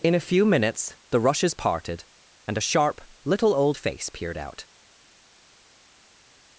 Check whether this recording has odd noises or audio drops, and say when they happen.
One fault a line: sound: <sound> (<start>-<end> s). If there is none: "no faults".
no faults